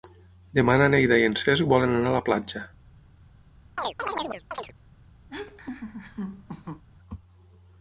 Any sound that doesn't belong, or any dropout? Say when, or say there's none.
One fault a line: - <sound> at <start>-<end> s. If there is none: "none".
- chirp at 3.8-4.7 s
- laugh at 5.3-6.8 s